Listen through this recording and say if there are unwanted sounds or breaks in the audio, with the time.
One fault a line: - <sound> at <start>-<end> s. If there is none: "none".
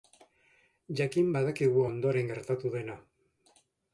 none